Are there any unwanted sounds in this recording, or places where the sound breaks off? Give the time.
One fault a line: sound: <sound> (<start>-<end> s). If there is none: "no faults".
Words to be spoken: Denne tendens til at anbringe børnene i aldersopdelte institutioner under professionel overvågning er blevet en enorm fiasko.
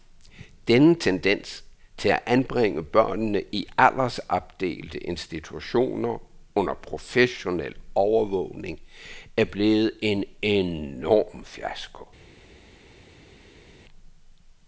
no faults